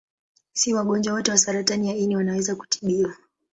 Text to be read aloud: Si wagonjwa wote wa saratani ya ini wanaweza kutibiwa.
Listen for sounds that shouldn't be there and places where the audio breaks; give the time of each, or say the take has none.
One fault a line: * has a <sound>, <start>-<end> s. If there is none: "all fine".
all fine